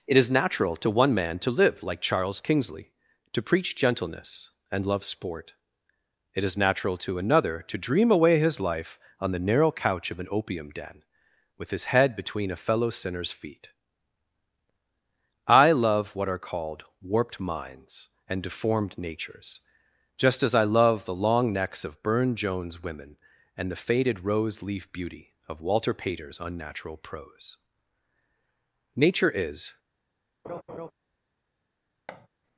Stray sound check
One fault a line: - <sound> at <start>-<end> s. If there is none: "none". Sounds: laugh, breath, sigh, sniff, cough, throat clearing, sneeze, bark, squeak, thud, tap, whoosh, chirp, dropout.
- laugh at 30.4-30.9 s
- thud at 32.1-32.3 s